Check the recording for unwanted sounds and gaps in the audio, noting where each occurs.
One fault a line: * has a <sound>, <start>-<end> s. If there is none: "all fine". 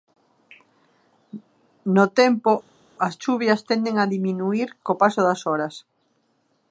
all fine